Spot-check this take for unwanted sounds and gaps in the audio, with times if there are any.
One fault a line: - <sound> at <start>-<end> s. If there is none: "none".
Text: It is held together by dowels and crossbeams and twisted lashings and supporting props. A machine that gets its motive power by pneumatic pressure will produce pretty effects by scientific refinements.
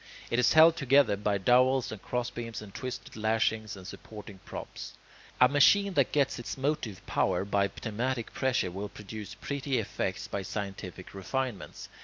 none